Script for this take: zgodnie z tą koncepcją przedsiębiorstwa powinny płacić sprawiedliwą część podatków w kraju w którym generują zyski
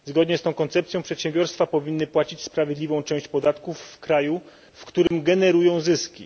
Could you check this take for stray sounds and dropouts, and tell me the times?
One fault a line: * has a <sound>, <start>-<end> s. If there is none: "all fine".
* has a dropout, 5.1-5.1 s